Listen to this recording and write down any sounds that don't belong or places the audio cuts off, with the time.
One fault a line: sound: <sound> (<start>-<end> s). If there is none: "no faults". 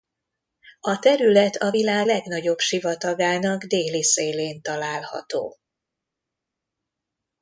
no faults